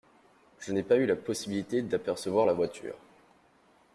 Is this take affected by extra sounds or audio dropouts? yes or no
no